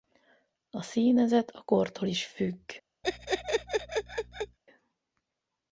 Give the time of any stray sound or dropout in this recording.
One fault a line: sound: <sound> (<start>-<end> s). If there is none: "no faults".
sound: laugh (3.0-4.6 s)